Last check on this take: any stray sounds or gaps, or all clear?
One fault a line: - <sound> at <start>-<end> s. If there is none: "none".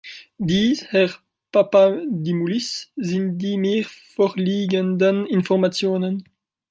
none